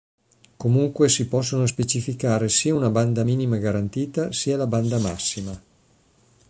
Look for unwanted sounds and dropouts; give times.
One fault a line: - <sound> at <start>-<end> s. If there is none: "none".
none